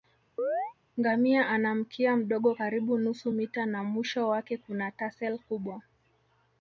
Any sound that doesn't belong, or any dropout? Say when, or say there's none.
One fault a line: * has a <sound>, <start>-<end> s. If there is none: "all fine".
* has a chirp, 0.4-0.7 s